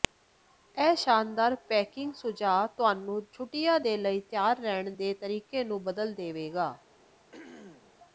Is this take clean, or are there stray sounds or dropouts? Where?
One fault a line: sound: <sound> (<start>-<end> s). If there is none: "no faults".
sound: throat clearing (7.3-7.9 s)